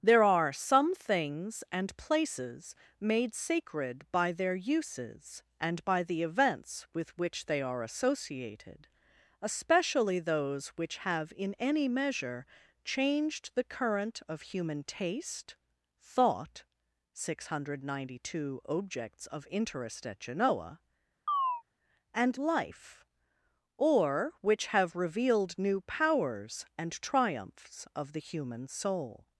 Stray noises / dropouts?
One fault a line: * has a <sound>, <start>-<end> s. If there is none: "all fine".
* has a chirp, 21.3-21.6 s